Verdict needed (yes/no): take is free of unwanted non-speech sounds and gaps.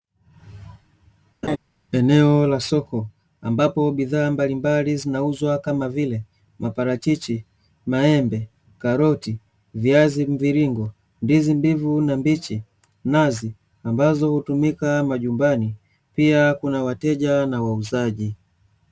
no